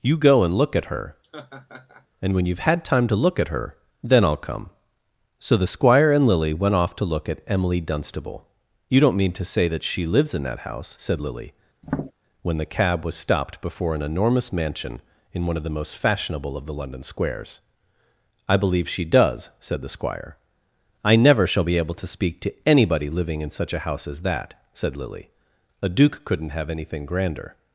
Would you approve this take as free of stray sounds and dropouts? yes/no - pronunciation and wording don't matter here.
no